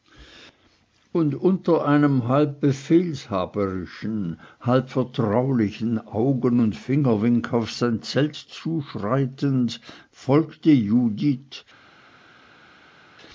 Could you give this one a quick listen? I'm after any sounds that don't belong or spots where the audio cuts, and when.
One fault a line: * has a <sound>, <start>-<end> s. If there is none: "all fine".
all fine